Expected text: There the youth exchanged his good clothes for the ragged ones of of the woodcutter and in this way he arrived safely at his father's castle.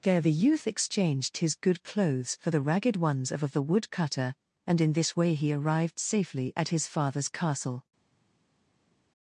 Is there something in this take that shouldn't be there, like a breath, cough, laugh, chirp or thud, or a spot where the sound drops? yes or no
no